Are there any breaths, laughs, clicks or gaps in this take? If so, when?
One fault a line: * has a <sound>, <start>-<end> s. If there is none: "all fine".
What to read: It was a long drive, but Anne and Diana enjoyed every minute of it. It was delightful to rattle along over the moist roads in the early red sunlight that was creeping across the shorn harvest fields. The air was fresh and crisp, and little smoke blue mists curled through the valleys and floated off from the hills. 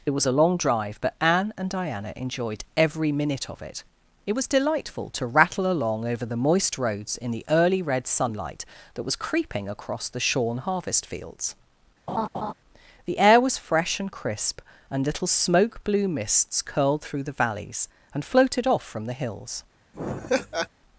* has a laugh, 12.1-12.5 s
* has a laugh, 19.9-20.7 s